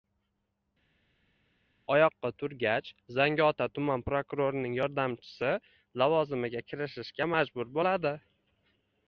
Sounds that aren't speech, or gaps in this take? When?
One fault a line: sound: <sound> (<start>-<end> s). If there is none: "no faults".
no faults